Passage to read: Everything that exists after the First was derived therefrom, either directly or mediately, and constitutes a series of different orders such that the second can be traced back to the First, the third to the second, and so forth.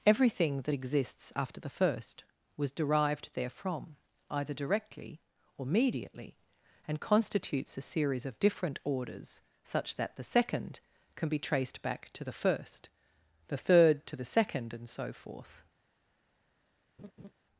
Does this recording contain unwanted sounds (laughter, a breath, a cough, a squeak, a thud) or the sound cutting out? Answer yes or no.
yes